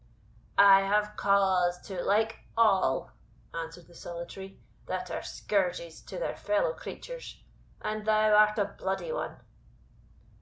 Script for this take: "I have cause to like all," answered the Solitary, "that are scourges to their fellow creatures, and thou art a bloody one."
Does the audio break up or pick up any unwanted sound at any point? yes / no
no